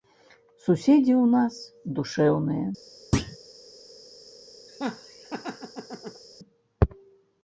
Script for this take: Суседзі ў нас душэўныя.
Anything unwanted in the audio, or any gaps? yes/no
yes